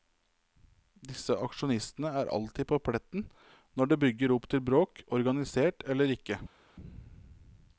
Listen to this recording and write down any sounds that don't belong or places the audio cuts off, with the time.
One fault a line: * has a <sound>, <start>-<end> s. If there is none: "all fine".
all fine